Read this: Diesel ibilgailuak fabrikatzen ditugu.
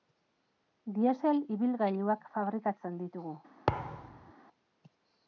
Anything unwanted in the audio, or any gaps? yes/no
yes